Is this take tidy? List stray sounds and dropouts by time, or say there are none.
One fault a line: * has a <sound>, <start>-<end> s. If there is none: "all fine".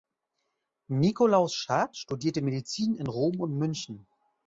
all fine